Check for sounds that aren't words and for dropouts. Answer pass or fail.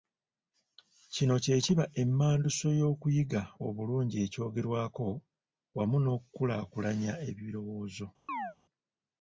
fail